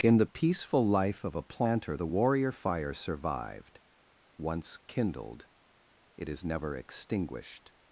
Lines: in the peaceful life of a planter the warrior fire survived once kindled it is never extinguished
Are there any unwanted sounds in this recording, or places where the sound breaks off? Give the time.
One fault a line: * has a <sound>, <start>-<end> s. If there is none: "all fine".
all fine